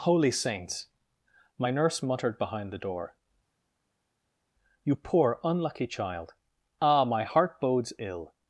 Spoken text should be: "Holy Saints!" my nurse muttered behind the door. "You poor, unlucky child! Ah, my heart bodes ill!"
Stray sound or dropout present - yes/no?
no